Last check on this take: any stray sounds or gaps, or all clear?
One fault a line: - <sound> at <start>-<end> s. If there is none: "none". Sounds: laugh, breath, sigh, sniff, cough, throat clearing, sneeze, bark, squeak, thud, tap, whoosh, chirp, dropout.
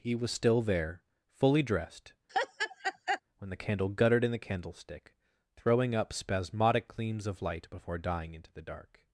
- laugh at 2.3-3.2 s